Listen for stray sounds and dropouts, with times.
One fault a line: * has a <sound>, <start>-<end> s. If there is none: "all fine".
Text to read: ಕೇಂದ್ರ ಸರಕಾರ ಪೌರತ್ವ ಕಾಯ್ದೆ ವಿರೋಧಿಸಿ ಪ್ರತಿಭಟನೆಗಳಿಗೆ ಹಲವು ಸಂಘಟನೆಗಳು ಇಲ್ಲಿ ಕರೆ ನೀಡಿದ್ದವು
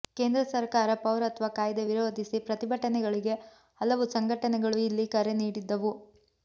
all fine